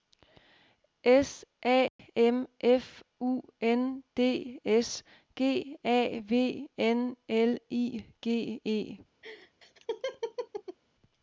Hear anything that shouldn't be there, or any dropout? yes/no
yes